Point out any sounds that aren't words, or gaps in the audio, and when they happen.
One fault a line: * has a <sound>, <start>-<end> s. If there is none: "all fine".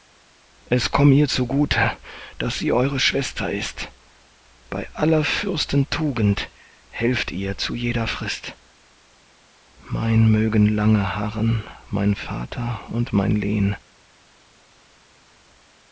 all fine